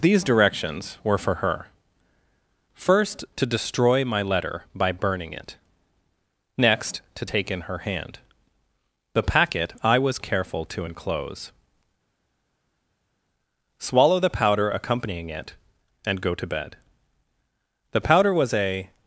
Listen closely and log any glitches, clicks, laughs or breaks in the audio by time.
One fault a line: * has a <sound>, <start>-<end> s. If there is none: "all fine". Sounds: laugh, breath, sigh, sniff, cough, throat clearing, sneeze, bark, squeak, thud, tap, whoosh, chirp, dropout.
all fine